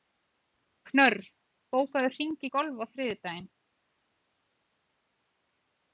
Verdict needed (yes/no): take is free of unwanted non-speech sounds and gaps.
yes